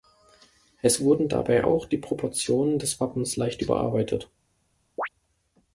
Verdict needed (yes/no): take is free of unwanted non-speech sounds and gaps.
no